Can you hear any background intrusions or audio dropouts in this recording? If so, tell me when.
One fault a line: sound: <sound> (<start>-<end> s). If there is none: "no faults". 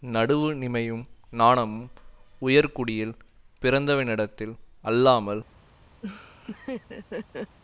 sound: laugh (6.0-7.6 s)